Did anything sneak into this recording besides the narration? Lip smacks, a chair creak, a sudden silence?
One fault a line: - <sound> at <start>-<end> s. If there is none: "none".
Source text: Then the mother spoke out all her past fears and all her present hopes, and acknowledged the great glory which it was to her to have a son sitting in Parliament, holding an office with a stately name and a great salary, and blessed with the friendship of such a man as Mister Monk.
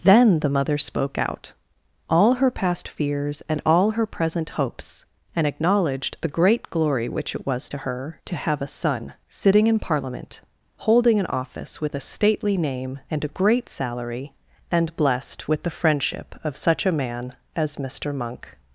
none